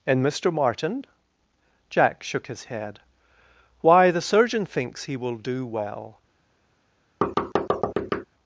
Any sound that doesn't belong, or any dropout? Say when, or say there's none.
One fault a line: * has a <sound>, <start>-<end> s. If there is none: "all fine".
* has a thud, 7.2-8.2 s